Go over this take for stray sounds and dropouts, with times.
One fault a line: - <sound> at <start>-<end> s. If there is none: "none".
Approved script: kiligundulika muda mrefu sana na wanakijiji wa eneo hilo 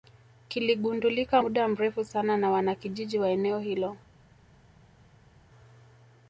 none